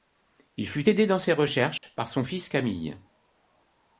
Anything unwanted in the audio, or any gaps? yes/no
yes